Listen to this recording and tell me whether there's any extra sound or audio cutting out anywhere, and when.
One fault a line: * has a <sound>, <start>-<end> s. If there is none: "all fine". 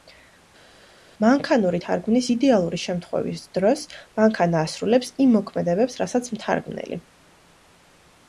all fine